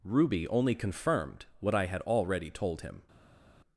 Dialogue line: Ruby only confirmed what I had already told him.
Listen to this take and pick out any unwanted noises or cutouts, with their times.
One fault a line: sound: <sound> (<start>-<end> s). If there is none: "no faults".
no faults